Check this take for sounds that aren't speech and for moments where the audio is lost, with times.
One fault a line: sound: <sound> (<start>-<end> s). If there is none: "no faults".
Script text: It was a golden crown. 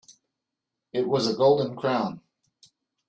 no faults